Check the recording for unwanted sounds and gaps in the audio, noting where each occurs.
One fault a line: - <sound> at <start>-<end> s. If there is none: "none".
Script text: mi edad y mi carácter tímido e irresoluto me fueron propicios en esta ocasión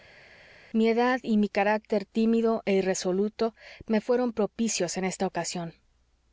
none